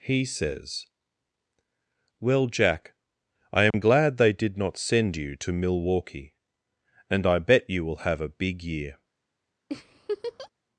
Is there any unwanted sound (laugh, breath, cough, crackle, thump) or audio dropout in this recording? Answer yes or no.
yes